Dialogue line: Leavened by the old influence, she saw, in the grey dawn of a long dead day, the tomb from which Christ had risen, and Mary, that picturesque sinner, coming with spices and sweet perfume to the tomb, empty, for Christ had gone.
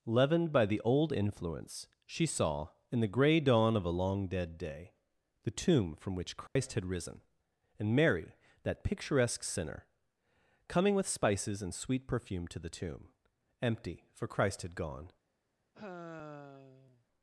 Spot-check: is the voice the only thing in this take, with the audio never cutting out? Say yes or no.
no